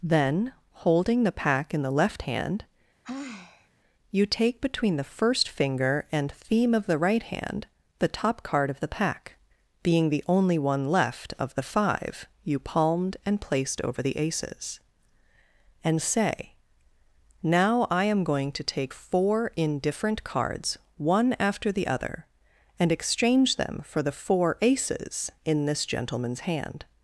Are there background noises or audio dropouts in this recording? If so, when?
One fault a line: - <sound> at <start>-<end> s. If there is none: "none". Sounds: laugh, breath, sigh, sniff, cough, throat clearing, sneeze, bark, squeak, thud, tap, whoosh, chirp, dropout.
- sigh at 3.0-3.7 s